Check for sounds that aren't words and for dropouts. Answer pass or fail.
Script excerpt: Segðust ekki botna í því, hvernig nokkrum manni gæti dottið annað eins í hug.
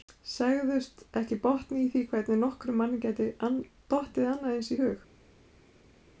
pass